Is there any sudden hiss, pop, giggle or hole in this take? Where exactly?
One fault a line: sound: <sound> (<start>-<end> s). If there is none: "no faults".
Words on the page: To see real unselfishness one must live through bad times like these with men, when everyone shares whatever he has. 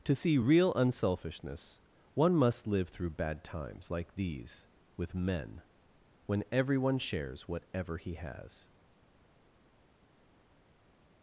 no faults